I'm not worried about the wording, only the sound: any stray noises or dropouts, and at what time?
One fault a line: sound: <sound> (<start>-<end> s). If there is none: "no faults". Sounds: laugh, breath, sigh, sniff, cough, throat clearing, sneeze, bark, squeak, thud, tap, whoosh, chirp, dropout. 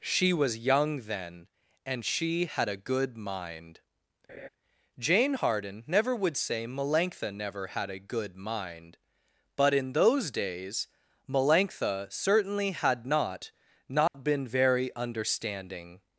sound: laugh (4.3-4.5 s)
sound: dropout (14.1-14.1 s)